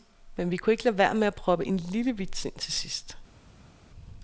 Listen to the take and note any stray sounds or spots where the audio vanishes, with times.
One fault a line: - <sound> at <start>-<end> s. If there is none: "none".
none